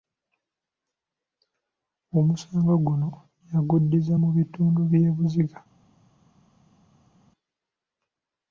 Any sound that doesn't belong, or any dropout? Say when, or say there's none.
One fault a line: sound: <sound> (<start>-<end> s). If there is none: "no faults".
no faults